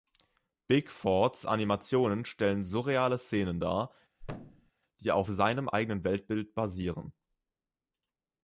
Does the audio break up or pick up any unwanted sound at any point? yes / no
yes